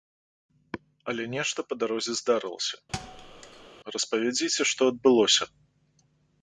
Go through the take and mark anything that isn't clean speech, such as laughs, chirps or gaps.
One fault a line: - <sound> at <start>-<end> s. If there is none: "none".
- thud at 2.9-3.7 s